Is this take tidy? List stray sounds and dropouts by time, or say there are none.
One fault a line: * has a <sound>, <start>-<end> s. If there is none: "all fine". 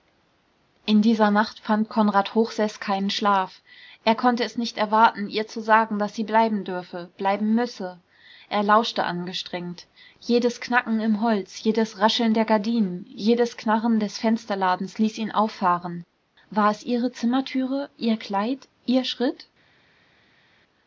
all fine